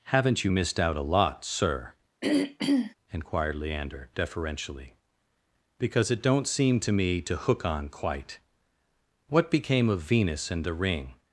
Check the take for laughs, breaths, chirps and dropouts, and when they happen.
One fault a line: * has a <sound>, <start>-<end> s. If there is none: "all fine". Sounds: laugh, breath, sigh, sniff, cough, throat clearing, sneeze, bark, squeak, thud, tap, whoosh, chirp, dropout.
* has a throat clearing, 2.2-2.9 s